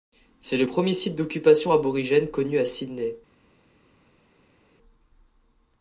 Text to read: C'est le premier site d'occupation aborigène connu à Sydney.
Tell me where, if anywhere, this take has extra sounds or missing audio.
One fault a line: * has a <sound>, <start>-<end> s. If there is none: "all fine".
all fine